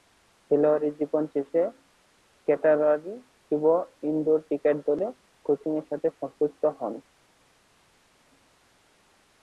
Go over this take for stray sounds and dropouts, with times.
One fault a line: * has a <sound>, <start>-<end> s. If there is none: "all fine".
all fine